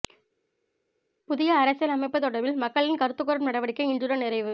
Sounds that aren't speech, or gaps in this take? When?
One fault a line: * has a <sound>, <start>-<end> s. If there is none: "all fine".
all fine